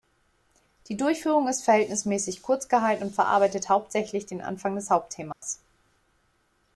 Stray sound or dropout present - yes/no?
yes